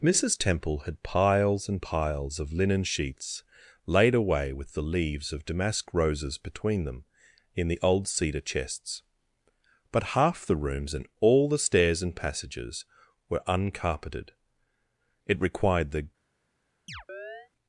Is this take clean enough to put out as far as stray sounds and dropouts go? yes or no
no